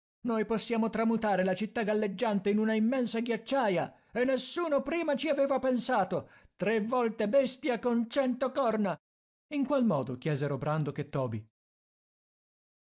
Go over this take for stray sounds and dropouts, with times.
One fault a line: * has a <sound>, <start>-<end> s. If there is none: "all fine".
all fine